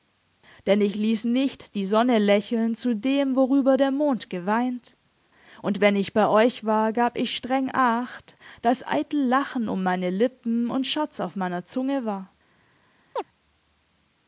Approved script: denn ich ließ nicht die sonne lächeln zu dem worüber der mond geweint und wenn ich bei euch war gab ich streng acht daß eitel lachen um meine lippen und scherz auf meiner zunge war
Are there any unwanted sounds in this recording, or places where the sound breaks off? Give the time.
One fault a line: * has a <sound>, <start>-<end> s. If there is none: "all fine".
* has a chirp, 13.2-13.2 s